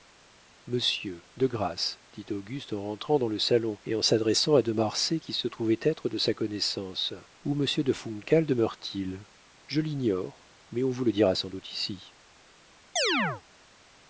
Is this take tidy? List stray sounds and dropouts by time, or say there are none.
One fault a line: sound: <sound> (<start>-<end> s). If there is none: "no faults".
sound: chirp (13.0-13.4 s)